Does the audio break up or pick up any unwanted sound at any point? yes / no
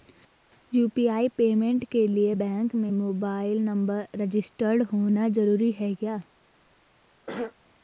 yes